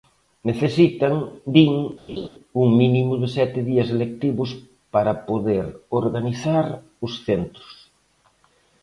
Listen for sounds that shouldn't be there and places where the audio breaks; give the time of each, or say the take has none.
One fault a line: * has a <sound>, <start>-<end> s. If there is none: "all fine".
* has a laugh, 2.1-2.3 s